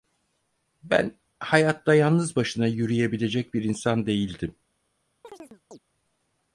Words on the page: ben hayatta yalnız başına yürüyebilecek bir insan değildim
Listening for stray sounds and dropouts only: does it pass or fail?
fail